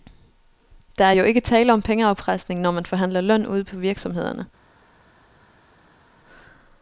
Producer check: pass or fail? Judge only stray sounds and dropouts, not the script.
pass